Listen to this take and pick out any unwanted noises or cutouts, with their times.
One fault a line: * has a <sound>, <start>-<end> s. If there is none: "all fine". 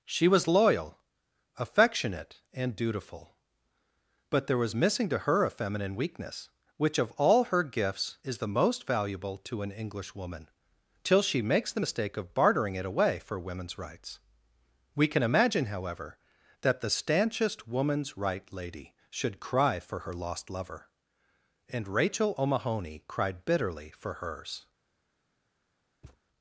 * has a thud, 26.0-26.2 s